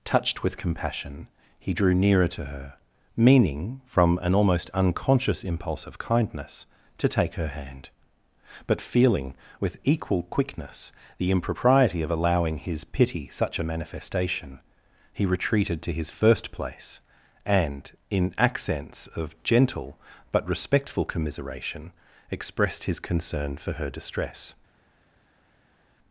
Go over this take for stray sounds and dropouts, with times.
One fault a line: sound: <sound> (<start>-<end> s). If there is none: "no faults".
no faults